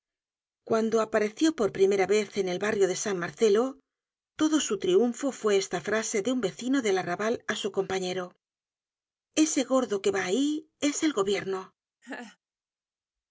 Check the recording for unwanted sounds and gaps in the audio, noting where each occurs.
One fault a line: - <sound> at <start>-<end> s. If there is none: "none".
- laugh at 12.0-12.4 s